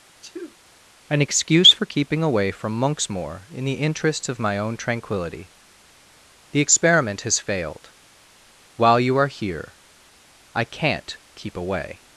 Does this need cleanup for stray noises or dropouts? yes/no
yes